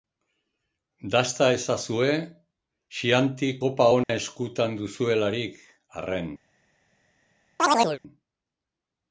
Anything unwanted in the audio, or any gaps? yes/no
yes